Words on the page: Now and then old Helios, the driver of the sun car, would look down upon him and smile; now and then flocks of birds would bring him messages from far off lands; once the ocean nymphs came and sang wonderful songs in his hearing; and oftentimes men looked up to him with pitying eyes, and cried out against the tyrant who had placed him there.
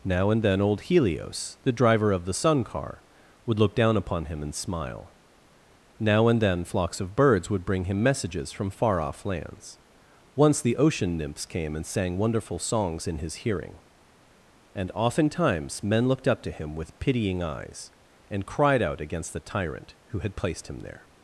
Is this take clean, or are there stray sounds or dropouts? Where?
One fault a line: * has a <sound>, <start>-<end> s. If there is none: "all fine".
all fine